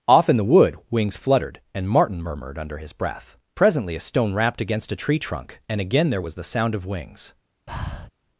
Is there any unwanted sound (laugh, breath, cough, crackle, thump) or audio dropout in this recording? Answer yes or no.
yes